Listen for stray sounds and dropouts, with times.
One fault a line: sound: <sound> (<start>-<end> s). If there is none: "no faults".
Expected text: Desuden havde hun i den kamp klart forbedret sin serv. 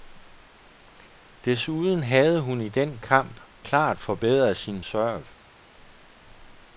no faults